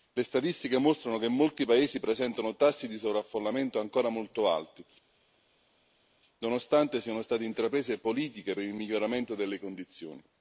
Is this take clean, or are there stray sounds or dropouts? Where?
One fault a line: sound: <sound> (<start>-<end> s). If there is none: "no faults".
no faults